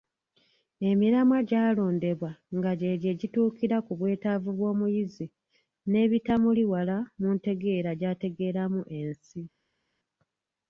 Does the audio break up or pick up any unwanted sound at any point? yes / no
no